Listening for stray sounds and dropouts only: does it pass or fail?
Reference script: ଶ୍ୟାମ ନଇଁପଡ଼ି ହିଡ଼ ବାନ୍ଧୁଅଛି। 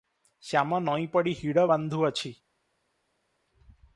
pass